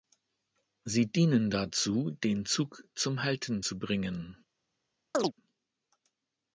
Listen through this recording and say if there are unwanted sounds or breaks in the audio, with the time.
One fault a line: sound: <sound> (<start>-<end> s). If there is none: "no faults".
sound: chirp (5.1-5.3 s)